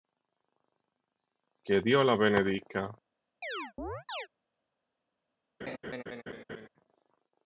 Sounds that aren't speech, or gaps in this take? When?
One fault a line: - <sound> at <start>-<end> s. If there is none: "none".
- chirp at 3.4-4.3 s
- laugh at 5.6-6.7 s